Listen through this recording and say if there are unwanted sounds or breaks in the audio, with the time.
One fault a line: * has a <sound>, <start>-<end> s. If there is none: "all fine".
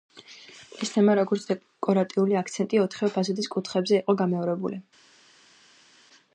all fine